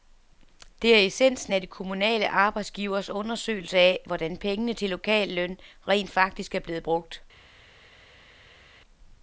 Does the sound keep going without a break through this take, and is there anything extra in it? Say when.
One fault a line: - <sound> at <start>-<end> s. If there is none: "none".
none